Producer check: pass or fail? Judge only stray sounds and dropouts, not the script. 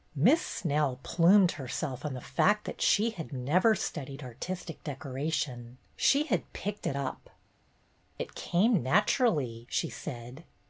pass